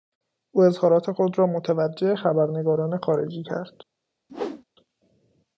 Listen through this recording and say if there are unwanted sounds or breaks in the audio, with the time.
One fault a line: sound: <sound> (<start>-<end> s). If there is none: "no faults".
sound: whoosh (4.3-4.6 s)